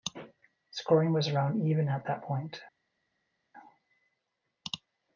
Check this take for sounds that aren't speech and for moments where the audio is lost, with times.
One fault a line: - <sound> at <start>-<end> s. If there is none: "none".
none